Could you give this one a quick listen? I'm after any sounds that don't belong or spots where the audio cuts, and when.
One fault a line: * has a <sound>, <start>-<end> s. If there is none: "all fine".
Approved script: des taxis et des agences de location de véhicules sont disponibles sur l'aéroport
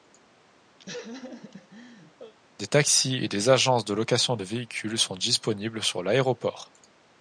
* has a laugh, 0.8-2.3 s